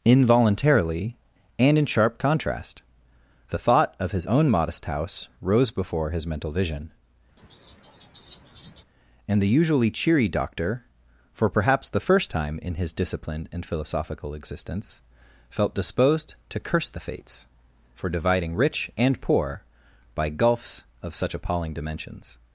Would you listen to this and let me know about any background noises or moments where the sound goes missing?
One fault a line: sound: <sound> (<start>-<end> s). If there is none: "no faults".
sound: laugh (7.4-8.8 s)